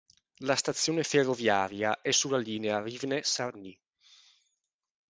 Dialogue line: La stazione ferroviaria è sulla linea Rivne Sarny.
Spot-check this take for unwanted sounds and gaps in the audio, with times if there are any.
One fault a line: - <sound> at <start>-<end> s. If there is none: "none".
none